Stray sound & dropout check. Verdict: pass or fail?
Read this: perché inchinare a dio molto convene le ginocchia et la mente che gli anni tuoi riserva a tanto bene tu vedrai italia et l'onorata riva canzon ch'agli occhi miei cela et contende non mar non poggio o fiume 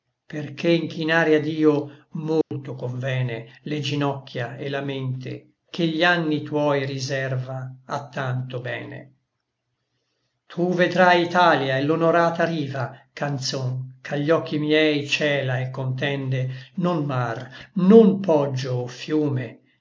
fail